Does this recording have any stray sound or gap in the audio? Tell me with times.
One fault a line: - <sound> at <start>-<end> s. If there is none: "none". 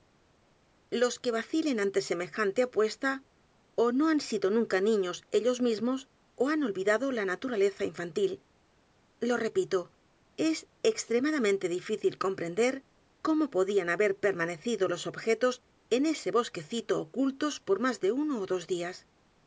none